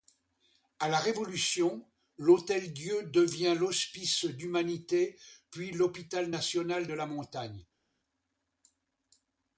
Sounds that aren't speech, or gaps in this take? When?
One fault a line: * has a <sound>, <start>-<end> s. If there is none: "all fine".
all fine